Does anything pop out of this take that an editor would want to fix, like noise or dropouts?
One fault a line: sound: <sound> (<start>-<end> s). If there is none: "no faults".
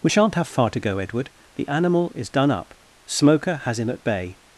no faults